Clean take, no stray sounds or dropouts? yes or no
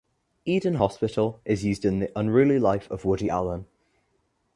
yes